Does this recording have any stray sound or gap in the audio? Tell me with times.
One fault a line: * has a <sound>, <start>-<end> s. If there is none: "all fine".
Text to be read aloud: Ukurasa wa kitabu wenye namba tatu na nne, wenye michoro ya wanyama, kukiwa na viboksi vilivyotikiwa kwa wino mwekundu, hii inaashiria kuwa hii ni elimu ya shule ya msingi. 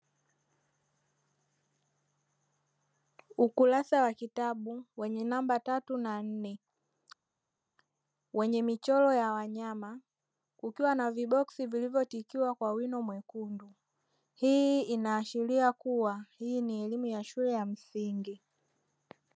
all fine